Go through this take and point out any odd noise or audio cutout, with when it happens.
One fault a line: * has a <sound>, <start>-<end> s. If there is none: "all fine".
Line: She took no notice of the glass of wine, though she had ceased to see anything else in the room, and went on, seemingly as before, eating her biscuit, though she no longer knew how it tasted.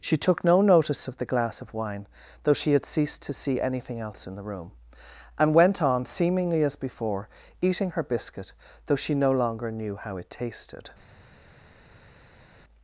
all fine